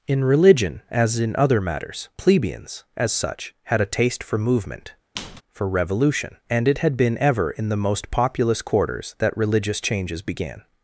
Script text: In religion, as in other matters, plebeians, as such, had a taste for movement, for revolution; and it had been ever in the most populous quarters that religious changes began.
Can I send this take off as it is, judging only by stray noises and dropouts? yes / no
no